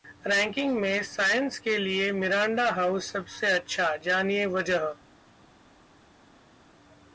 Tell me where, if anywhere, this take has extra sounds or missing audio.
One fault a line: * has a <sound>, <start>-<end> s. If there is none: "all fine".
all fine